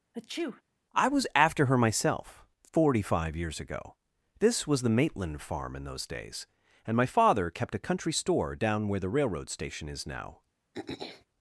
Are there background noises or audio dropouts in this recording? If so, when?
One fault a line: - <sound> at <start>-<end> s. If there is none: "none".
- sneeze at 0.1-0.6 s
- throat clearing at 10.7-11.3 s